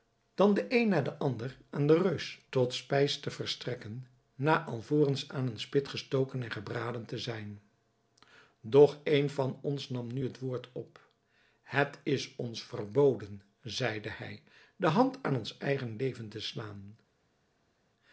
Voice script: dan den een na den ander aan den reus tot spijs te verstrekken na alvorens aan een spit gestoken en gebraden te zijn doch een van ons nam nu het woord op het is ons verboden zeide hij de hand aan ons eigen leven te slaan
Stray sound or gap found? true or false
false